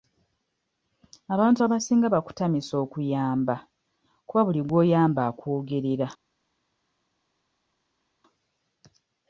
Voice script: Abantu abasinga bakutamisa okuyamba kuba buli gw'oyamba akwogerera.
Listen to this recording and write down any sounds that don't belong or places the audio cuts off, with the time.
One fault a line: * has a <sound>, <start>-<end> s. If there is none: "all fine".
all fine